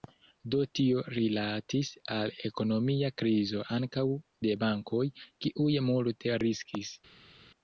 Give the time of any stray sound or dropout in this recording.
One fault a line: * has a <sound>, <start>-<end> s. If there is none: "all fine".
all fine